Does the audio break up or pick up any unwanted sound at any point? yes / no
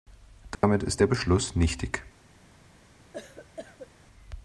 yes